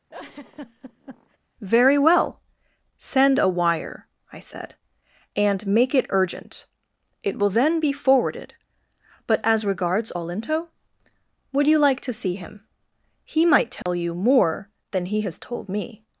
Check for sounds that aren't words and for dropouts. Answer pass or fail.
fail